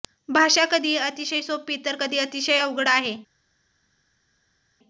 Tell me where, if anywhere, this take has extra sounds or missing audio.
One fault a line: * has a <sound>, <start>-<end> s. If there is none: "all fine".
all fine